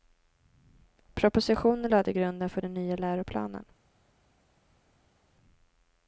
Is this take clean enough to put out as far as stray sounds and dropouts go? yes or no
yes